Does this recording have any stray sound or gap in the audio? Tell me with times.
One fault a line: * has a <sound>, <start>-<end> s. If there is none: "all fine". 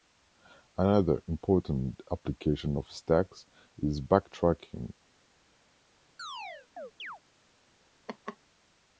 * has a chirp, 6.2-7.2 s
* has a laugh, 8.1-8.4 s